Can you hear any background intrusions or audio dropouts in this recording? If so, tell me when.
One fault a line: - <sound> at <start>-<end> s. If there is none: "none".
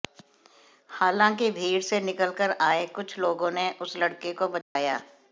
- dropout at 4.6-4.8 s